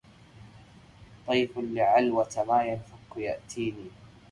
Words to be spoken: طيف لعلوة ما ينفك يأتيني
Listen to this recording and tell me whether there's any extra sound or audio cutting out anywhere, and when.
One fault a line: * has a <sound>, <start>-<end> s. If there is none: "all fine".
all fine